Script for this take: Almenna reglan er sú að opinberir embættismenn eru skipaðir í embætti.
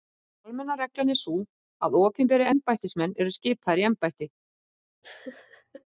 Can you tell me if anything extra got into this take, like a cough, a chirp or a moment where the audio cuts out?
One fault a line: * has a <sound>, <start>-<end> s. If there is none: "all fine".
* has a laugh, 5.0-5.8 s